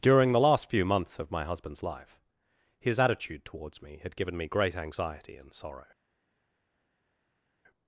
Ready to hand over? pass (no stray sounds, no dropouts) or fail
pass